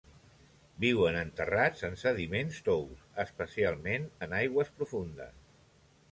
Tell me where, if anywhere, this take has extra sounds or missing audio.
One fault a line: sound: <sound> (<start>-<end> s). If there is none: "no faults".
no faults